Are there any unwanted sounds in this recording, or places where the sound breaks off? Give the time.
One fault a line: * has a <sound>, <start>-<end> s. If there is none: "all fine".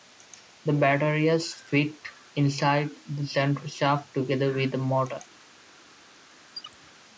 * has a squeak, 6.5-7.0 s